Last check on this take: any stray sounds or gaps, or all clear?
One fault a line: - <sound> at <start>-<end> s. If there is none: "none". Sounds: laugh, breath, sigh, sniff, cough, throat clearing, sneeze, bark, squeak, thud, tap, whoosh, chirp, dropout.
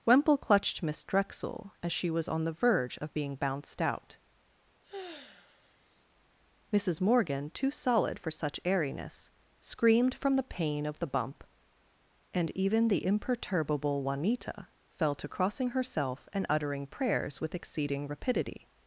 - sigh at 4.8-6.1 s